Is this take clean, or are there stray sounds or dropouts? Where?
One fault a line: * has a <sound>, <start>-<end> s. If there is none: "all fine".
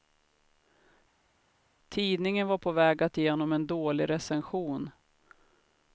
all fine